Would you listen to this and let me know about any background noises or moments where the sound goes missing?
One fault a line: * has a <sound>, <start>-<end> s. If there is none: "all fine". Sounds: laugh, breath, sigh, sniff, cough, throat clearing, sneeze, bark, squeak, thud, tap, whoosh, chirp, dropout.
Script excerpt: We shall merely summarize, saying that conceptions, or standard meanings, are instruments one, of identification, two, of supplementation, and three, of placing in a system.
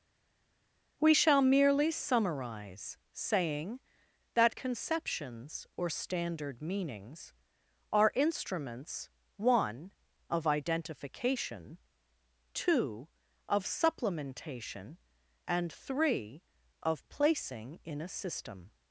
all fine